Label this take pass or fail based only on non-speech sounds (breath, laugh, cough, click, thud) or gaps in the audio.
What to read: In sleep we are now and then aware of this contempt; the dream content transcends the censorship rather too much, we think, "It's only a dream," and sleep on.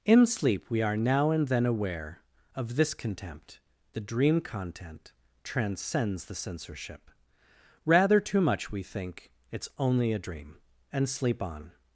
pass